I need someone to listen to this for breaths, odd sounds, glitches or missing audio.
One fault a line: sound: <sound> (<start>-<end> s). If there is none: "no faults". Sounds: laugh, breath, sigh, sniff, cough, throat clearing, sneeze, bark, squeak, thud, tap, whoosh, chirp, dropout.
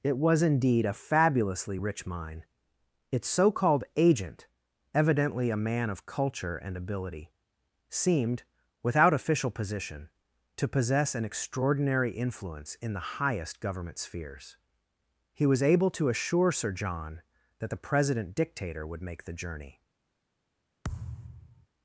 sound: thud (20.8-21.7 s)